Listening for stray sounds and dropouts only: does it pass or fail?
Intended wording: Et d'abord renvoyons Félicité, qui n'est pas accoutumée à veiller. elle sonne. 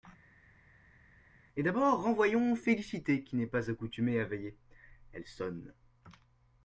pass